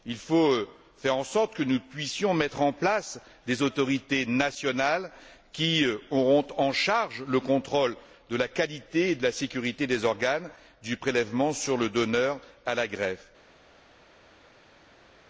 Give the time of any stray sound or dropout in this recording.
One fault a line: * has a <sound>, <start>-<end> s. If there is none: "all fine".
all fine